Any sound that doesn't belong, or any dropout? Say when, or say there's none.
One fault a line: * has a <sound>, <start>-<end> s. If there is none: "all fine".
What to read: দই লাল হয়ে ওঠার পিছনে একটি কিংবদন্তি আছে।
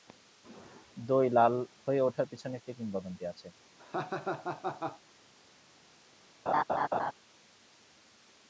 * has a laugh, 3.8-5.0 s
* has a laugh, 6.5-7.1 s